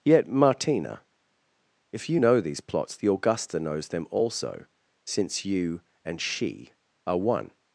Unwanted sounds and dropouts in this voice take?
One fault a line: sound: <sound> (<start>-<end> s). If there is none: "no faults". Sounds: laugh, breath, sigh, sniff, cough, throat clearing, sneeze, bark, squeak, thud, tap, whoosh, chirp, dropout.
no faults